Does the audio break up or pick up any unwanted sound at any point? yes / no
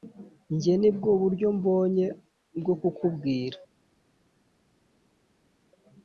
no